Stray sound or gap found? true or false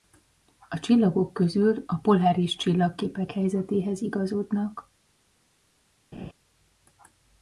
true